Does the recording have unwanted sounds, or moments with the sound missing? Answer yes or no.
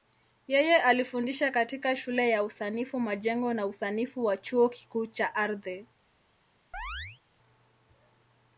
yes